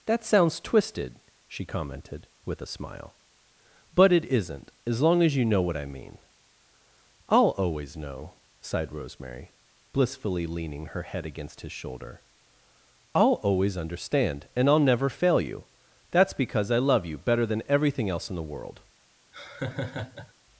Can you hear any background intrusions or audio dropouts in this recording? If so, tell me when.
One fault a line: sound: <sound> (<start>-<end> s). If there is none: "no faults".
sound: laugh (19.3-20.3 s)